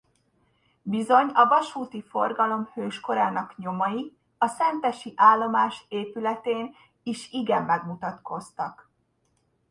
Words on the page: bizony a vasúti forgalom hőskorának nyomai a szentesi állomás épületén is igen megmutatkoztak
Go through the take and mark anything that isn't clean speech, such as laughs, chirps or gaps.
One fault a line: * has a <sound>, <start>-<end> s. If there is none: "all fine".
all fine